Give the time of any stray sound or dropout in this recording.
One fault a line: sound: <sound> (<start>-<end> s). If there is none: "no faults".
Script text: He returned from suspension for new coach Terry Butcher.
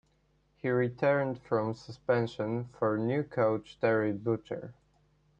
no faults